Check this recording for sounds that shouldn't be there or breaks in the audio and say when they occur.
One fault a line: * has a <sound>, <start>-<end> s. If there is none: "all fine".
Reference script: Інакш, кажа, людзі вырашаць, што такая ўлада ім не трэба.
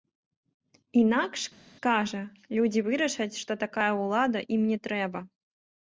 all fine